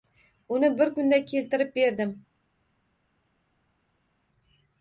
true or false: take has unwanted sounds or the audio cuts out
false